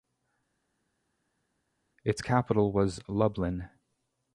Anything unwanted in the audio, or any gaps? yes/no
no